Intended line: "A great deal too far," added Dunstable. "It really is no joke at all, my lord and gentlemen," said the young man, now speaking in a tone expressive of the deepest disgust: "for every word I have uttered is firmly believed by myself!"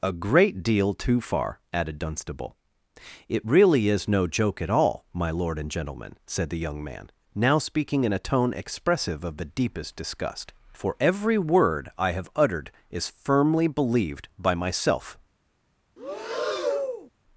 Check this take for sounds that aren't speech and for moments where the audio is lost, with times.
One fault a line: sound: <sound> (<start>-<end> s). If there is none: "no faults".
sound: breath (16.0-17.1 s)